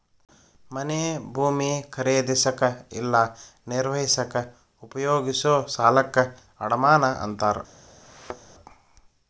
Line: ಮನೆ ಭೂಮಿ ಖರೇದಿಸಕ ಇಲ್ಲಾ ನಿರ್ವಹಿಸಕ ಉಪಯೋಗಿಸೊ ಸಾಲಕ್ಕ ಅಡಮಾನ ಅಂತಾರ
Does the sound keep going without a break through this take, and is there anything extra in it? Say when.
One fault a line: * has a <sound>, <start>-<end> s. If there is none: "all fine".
* has a thud, 8.0-8.5 s